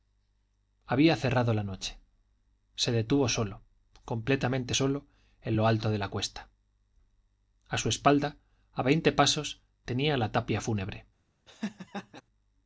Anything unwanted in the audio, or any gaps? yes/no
yes